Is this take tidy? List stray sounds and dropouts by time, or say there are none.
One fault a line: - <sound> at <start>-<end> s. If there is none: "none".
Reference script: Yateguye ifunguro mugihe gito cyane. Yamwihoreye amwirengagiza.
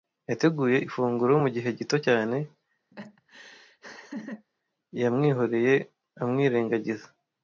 - laugh at 2.9-4.5 s